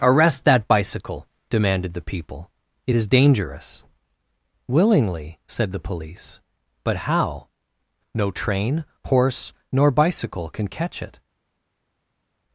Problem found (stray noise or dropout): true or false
false